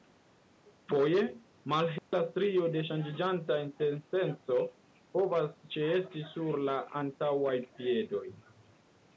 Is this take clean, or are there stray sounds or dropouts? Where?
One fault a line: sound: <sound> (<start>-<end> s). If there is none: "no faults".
sound: dropout (2.0-2.1 s)